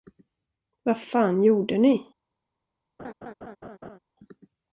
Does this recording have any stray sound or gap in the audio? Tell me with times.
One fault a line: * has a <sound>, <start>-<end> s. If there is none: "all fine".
* has a laugh, 3.0-4.0 s